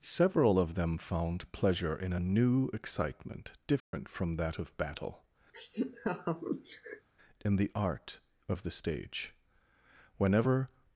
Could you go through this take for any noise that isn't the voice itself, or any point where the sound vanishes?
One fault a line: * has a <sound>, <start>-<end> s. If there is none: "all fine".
* has a dropout, 3.8-3.9 s
* has a laugh, 5.5-7.1 s